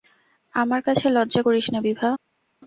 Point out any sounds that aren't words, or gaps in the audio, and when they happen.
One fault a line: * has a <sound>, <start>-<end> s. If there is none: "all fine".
all fine